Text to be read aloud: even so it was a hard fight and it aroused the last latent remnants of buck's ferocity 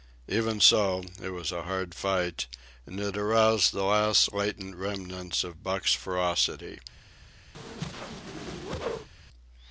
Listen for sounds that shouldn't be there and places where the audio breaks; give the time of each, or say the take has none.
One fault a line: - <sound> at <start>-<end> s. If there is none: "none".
- whoosh at 7.5-9.1 s